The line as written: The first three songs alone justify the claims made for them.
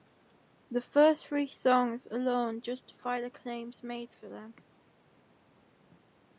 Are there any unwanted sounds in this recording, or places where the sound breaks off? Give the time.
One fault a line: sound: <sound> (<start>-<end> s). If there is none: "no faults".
no faults